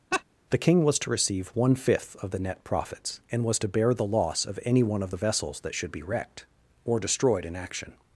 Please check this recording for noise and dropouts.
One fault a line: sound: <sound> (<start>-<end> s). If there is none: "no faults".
sound: laugh (0.1-0.2 s)